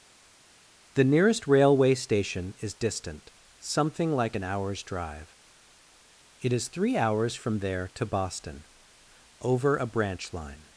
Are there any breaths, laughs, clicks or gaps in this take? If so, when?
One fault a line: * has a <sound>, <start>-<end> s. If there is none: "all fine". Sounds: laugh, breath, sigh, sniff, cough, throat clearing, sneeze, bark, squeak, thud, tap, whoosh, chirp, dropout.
all fine